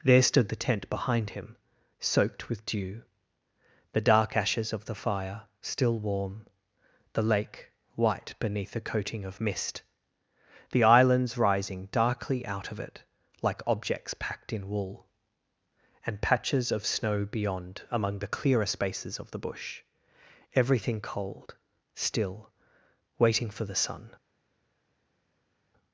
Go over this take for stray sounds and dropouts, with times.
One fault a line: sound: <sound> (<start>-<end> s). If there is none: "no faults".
no faults